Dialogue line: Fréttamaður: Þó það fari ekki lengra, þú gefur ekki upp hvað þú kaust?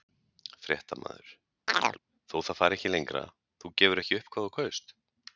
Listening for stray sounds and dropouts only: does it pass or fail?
fail